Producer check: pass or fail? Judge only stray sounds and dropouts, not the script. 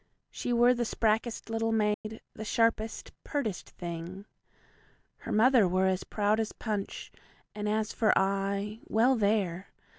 fail